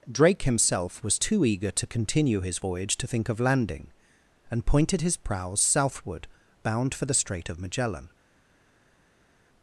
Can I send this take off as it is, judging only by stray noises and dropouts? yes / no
yes